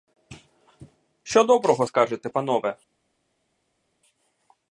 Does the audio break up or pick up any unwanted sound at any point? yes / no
no